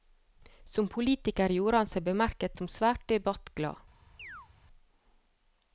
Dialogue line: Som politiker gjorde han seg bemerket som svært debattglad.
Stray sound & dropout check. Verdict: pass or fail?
fail